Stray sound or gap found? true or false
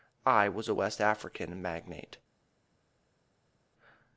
false